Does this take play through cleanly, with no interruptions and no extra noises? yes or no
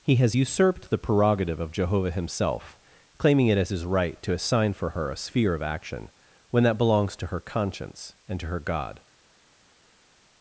yes